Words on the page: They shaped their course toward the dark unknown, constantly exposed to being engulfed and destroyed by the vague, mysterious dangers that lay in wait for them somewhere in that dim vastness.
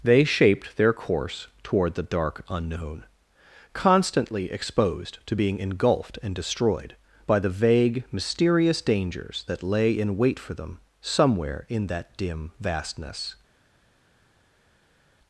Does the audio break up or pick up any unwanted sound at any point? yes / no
no